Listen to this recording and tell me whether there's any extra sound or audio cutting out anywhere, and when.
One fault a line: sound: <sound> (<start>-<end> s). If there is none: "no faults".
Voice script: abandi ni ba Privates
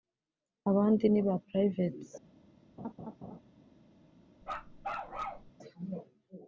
sound: laugh (2.8-3.4 s)
sound: bark (4.4-5.5 s)